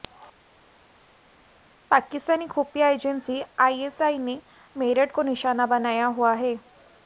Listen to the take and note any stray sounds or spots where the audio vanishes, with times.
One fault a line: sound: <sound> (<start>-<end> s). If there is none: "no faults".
no faults